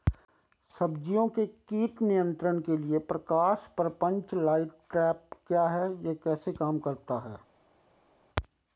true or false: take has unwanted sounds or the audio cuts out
false